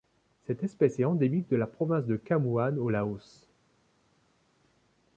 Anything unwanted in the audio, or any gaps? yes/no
no